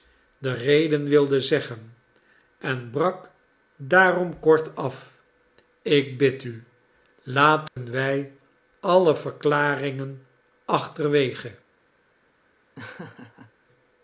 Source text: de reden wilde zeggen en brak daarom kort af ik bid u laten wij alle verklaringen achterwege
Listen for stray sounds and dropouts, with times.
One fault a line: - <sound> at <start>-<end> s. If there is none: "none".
- dropout at 7.7-7.8 s
- laugh at 12.8-13.5 s